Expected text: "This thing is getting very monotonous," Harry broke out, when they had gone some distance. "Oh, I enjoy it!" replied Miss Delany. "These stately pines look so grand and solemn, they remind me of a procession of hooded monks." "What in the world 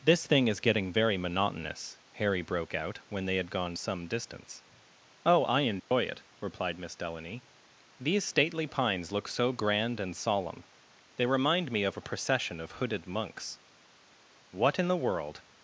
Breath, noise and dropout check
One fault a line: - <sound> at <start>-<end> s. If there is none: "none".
- dropout at 5.8-5.9 s